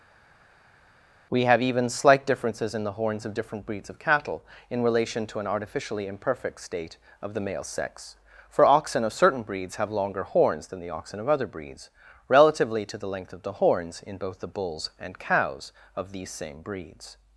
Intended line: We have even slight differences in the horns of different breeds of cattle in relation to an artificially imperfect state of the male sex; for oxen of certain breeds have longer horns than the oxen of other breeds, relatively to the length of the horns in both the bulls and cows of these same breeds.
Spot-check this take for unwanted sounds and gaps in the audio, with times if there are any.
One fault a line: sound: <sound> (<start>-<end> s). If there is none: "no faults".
no faults